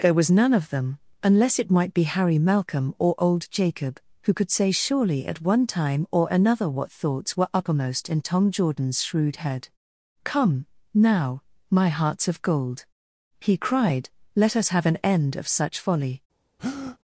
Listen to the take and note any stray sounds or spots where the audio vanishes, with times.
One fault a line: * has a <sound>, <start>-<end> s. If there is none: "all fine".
* has a breath, 16.6-17.0 s